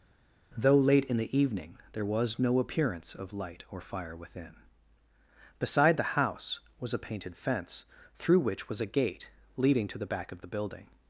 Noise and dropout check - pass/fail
pass